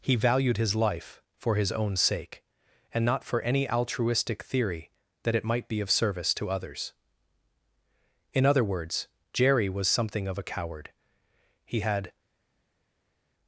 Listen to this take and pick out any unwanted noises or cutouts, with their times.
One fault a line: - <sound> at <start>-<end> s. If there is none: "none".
none